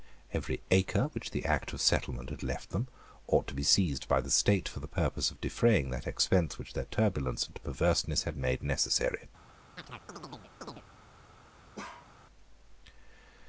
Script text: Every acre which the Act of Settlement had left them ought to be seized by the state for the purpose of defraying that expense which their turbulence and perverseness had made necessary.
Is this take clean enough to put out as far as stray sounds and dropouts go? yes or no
no